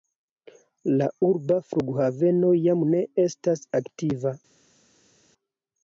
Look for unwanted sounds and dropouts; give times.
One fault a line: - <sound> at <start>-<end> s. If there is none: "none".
none